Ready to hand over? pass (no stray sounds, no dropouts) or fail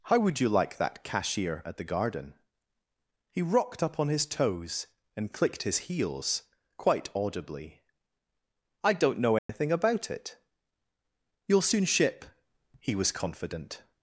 fail